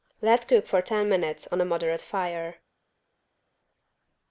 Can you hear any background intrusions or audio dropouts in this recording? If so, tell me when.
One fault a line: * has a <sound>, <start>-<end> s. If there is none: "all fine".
all fine